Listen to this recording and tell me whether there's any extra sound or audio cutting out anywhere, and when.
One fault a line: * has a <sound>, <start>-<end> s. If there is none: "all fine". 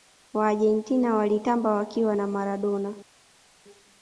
all fine